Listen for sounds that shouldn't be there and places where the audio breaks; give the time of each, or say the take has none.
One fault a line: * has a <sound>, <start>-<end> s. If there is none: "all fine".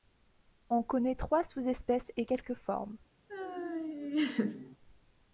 * has a laugh, 3.3-4.8 s